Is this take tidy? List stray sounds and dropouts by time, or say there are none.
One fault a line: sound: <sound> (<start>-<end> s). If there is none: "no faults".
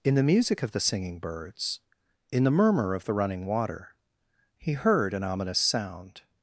no faults